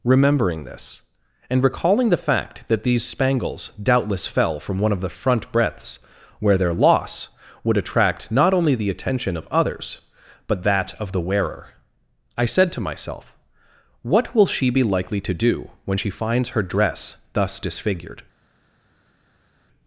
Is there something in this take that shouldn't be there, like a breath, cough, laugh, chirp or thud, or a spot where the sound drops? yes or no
no